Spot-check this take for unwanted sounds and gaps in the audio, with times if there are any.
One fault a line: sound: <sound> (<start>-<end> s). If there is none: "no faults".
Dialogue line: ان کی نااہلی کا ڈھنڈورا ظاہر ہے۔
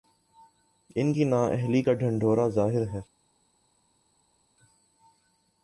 no faults